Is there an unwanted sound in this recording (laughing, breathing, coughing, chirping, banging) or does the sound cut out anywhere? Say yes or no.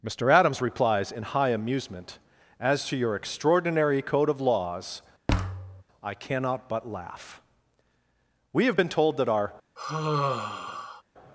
yes